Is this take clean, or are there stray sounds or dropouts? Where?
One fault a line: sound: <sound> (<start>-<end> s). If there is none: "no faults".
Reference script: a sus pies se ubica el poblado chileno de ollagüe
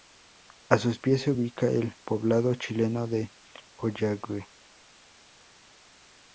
no faults